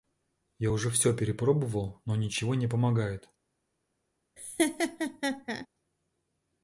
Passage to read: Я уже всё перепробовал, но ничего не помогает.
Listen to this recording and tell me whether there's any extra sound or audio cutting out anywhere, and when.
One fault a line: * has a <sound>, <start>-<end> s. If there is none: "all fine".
* has a laugh, 4.4-5.7 s